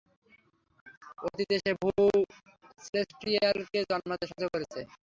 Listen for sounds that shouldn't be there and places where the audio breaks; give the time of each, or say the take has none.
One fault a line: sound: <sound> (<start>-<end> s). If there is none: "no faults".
no faults